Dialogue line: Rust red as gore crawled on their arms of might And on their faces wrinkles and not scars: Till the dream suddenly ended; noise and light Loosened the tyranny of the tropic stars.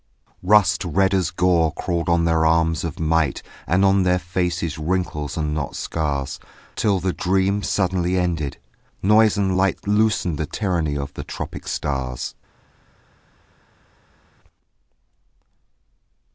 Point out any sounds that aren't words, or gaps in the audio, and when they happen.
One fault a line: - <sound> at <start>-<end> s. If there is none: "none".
none